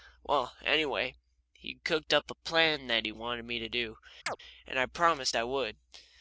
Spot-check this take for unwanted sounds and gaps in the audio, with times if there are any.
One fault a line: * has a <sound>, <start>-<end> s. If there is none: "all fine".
* has a chirp, 4.3-4.4 s